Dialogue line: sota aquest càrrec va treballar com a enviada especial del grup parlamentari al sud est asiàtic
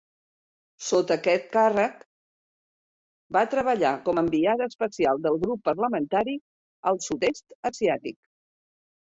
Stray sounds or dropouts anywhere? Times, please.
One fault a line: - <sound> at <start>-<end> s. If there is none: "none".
none